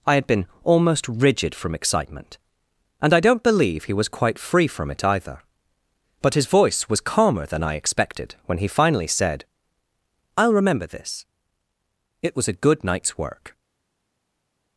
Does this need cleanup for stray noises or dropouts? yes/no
no